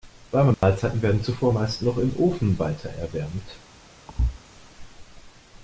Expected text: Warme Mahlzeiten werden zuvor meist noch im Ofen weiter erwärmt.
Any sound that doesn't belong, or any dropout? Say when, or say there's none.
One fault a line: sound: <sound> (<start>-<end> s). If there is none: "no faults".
sound: dropout (0.5-0.6 s)
sound: thud (4.1-4.4 s)